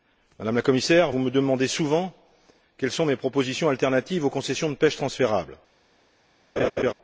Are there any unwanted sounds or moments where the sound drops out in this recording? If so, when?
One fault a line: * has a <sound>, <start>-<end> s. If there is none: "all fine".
* has a laugh, 6.6-6.9 s